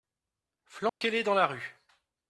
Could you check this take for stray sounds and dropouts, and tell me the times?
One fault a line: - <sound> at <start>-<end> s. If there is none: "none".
- dropout at 0.9-1.0 s